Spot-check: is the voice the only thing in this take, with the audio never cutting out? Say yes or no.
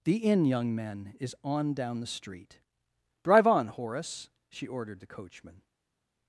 yes